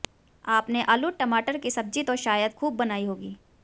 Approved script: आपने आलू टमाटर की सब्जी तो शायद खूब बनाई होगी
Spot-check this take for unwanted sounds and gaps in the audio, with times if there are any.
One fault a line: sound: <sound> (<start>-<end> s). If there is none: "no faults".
no faults